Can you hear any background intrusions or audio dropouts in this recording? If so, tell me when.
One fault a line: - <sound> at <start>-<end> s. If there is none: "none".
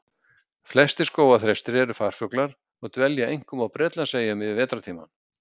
none